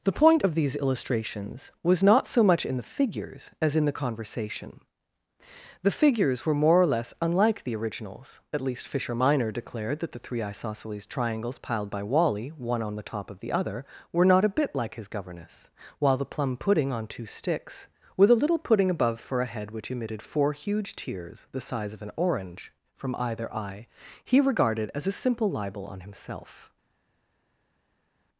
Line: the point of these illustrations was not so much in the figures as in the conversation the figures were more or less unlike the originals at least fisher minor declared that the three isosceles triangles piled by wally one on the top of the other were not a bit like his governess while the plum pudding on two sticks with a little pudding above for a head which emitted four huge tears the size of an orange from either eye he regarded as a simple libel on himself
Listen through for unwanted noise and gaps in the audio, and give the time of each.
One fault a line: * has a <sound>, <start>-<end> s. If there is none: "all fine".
all fine